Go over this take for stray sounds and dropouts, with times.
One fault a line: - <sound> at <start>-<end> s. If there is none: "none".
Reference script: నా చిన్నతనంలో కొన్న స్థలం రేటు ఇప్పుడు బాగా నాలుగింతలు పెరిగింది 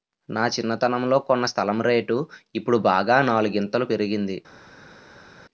none